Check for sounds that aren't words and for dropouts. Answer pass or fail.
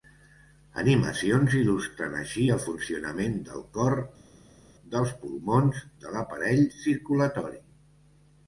pass